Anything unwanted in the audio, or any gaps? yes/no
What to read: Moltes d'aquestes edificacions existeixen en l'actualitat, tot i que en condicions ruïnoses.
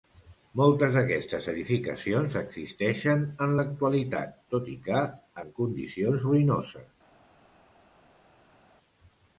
no